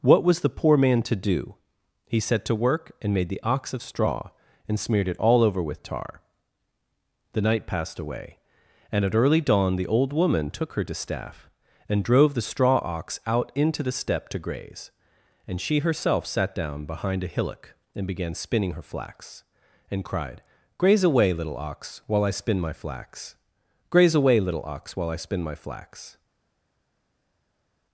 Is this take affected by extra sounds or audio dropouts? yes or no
no